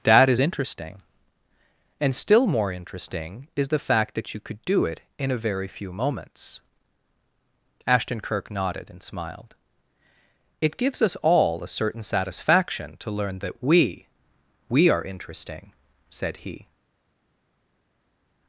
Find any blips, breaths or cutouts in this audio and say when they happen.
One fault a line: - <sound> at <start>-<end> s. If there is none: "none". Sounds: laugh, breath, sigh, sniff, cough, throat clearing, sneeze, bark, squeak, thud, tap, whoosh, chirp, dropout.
none